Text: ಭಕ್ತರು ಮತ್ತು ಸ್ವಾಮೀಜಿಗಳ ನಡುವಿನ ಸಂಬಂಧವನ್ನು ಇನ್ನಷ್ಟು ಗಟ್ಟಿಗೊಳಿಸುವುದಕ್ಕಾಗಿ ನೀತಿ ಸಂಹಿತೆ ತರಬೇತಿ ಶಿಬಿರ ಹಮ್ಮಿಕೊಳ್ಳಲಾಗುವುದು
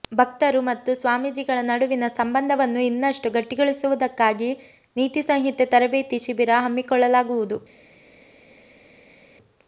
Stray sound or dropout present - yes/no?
no